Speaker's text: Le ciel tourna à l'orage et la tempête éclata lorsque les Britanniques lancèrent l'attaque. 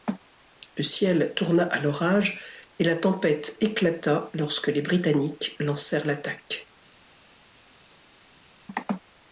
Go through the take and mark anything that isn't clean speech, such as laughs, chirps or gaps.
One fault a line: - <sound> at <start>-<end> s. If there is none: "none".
none